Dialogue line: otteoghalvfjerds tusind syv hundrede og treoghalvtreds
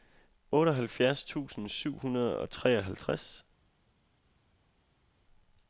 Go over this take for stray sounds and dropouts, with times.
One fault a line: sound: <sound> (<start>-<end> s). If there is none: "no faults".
no faults